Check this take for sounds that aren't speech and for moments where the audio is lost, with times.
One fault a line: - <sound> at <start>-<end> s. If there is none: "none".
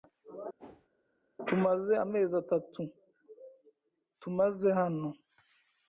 - whoosh at 0.6-0.9 s